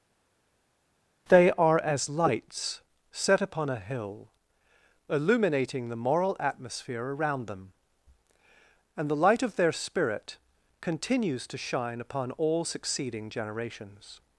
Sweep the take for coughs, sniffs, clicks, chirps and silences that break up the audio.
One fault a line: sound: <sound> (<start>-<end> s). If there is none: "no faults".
no faults